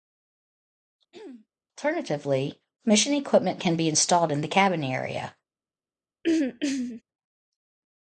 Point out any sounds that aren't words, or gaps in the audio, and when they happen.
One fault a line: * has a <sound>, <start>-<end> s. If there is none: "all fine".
* has a throat clearing, 1.1-1.5 s
* has a throat clearing, 6.2-7.0 s